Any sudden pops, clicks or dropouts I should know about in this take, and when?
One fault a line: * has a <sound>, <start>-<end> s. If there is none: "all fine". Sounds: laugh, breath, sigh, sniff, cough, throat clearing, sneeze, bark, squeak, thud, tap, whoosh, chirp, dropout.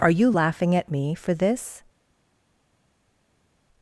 all fine